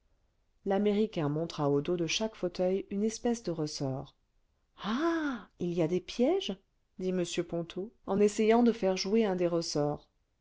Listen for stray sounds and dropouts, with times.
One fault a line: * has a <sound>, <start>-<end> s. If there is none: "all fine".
all fine